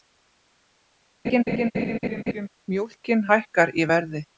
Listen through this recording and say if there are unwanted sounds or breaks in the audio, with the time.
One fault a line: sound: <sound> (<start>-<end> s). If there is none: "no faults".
sound: laugh (1.2-2.5 s)